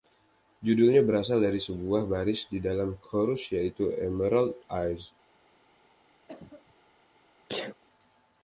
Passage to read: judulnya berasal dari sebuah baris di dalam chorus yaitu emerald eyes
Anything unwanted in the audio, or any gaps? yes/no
yes